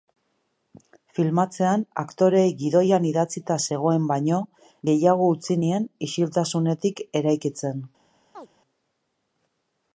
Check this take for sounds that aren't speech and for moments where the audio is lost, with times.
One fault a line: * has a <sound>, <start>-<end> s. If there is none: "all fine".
* has a chirp, 8.3-8.5 s